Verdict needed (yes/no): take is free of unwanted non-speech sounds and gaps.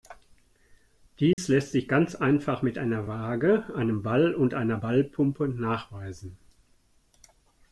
no